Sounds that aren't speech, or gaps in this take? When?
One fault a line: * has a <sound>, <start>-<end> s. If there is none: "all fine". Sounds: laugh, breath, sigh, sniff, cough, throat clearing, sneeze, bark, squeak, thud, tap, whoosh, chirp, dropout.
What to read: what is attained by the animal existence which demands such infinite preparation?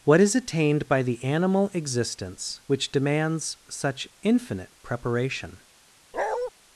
* has a bark, 6.1-6.5 s